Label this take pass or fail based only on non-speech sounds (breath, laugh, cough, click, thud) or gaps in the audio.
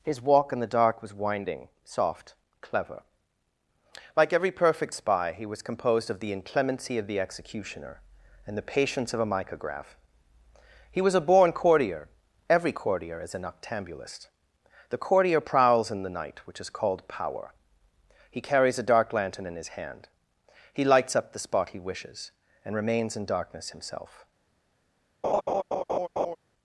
fail